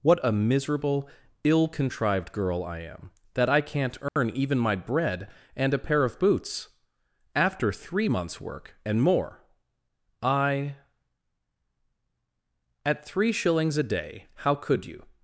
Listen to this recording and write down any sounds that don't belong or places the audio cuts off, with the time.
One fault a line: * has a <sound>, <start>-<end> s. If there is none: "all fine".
* has a dropout, 4.1-4.2 s